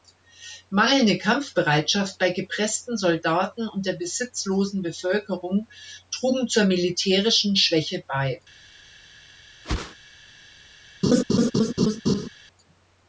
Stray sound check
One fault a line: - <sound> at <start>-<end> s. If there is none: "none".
- whoosh at 9.6-10.0 s
- laugh at 11.0-12.3 s